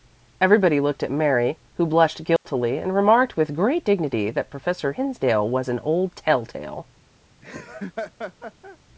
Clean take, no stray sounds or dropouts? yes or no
no